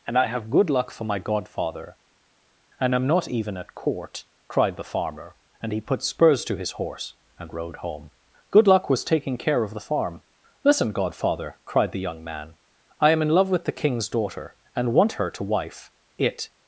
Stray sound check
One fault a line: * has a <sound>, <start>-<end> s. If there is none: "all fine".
all fine